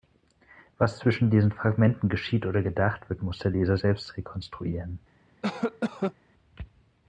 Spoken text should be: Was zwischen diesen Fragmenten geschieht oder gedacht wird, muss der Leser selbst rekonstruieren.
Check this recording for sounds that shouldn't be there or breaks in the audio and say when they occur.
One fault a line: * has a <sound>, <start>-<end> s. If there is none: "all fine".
* has a cough, 5.4-6.1 s